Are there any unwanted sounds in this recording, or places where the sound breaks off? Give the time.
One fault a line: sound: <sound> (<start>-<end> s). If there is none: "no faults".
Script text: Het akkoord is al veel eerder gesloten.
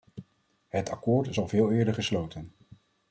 no faults